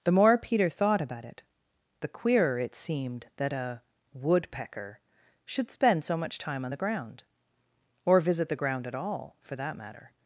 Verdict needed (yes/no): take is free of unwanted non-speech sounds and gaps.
yes